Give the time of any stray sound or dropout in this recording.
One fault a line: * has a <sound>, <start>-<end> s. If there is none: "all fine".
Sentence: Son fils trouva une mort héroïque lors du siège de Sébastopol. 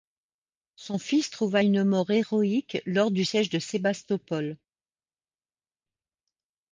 all fine